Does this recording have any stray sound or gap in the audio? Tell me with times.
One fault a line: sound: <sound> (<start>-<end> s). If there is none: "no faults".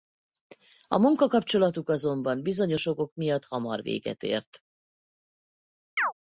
sound: chirp (6.0-6.1 s)